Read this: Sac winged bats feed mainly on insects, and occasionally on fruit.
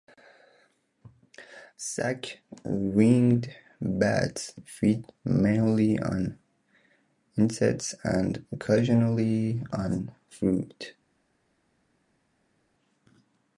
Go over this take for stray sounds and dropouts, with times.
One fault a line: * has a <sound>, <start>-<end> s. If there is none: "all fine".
all fine